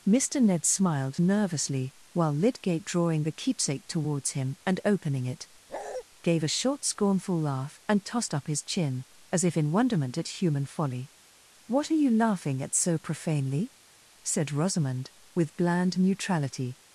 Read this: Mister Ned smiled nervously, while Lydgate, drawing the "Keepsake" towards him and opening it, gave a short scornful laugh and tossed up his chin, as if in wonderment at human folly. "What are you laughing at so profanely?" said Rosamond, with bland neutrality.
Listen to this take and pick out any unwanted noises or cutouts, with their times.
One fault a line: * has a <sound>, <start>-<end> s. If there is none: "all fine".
* has a bark, 5.7-6.0 s